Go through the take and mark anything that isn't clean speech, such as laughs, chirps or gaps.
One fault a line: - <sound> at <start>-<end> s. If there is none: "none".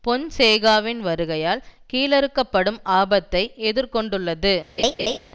- laugh at 4.8-5.2 s